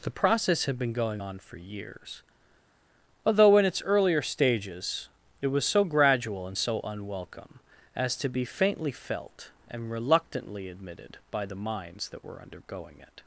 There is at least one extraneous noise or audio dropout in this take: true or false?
false